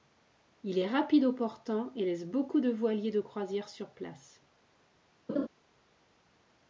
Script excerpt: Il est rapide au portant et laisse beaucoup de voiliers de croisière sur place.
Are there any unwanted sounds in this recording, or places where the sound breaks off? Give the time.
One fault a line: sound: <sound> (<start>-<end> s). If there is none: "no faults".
sound: laugh (5.3-5.5 s)